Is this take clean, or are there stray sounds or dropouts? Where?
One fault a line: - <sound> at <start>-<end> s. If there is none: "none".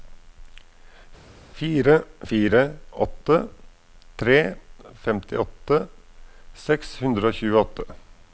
none